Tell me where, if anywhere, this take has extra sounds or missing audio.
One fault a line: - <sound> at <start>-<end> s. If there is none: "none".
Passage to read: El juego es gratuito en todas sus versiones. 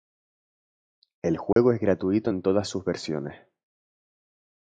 - dropout at 1.5-1.6 s